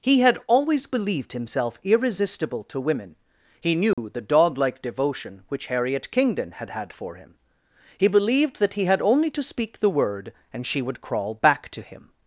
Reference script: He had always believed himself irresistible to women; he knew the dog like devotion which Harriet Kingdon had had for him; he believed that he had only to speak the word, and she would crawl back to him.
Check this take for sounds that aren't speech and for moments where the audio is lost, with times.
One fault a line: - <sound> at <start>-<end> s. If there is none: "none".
- dropout at 3.9-4.0 s